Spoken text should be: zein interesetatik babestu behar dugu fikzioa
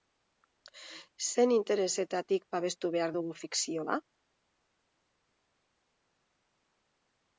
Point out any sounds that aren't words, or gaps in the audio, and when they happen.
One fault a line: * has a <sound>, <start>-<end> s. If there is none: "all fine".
all fine